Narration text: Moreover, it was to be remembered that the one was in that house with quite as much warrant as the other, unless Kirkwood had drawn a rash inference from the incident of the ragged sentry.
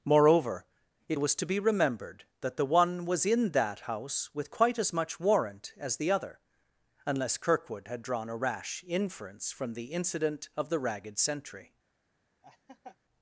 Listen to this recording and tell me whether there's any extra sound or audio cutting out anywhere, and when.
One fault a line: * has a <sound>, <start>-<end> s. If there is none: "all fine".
* has a laugh, 12.4-13.0 s